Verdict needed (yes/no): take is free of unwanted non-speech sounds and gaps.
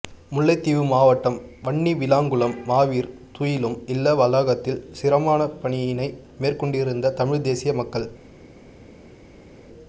yes